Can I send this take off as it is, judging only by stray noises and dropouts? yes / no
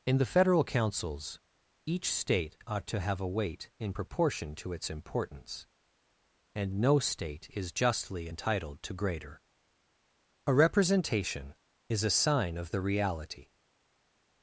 yes